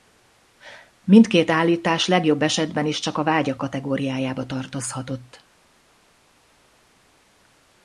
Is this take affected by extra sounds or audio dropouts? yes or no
no